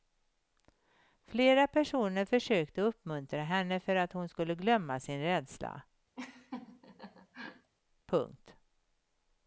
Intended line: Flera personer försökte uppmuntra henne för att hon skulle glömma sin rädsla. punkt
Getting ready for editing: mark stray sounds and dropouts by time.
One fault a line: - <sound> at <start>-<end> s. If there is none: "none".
- laugh at 6.2-7.7 s